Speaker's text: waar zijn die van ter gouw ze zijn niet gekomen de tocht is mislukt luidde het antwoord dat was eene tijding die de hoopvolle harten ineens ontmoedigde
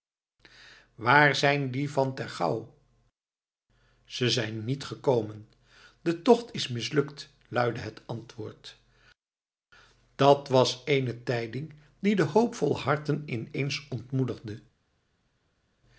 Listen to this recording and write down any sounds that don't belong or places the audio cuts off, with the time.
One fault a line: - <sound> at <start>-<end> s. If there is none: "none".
none